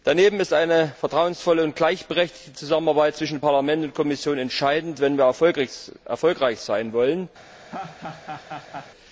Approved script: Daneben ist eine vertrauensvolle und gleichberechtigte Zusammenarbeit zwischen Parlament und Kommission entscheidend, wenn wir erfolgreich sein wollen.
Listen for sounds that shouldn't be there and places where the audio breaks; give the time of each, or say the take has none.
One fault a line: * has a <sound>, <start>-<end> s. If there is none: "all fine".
* has a laugh, 7.7-8.9 s